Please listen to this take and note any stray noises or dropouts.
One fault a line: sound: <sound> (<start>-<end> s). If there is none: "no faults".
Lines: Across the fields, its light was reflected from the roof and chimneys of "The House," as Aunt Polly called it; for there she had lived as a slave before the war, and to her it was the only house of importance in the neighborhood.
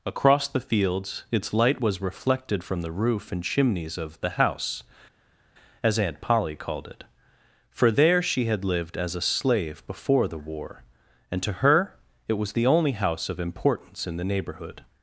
no faults